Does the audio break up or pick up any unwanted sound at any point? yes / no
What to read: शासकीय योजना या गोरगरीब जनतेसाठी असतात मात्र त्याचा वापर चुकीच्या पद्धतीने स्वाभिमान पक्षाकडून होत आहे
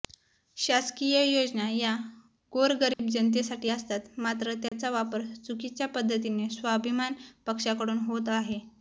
yes